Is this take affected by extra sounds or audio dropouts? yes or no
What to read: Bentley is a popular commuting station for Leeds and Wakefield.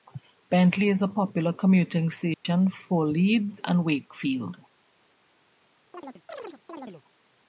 yes